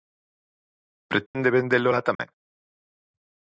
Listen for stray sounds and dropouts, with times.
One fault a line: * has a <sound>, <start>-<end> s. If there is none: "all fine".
* has a dropout, 1.3-1.3 s
* has a dropout, 2.1-2.2 s